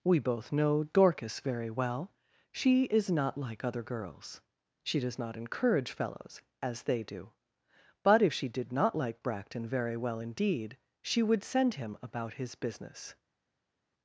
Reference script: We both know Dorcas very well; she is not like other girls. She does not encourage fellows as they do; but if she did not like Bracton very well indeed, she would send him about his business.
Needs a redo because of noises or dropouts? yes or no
no